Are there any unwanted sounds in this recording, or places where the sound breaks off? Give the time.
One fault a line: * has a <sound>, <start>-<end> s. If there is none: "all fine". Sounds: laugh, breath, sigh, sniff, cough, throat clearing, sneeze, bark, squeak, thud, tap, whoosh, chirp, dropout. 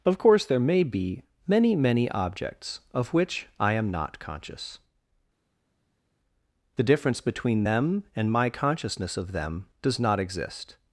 all fine